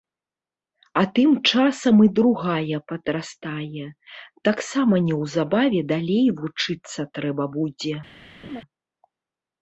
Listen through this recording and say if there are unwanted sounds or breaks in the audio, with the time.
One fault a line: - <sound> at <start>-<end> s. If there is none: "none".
- laugh at 8.4-8.6 s